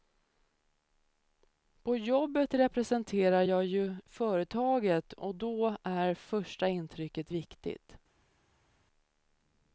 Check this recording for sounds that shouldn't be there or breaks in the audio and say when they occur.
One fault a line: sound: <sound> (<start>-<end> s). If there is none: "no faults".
no faults